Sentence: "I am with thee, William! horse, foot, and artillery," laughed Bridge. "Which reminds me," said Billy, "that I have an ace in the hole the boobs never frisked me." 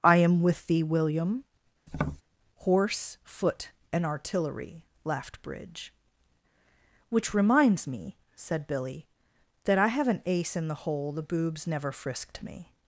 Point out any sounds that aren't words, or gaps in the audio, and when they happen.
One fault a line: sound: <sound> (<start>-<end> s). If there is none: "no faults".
sound: tap (1.9-2.2 s)